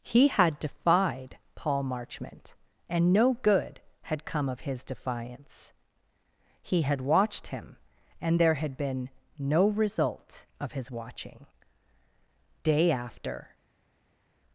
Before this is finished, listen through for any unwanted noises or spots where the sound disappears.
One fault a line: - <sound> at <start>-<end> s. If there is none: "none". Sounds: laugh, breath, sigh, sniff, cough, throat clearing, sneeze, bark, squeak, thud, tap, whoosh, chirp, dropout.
none